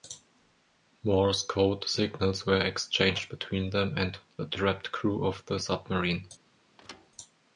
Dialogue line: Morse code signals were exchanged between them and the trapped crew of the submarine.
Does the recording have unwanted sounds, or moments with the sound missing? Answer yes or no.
yes